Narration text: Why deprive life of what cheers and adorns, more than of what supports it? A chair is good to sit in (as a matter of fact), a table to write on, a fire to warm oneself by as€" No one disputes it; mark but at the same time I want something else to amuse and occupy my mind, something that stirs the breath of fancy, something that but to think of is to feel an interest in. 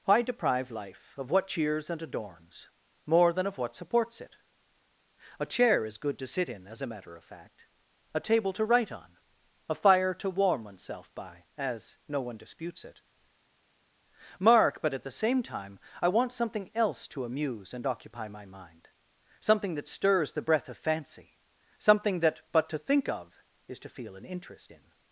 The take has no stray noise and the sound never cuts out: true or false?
true